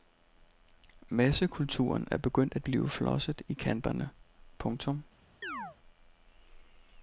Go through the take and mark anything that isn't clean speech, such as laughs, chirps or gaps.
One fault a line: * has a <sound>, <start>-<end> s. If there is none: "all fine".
* has a chirp, 5.4-5.8 s